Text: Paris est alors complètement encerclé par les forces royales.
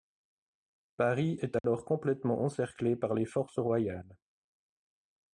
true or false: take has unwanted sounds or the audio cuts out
true